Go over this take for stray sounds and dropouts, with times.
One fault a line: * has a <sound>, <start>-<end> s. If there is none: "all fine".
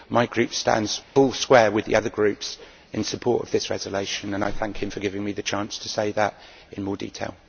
* has a dropout, 1.0-1.2 s